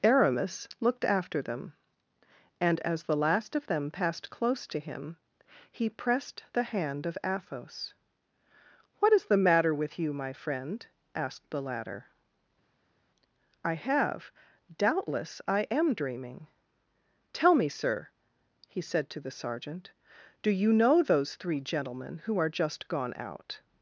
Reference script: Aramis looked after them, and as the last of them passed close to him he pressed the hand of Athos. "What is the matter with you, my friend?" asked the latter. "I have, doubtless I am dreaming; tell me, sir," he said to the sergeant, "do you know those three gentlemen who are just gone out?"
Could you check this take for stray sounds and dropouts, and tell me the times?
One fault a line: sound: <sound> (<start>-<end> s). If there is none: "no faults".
no faults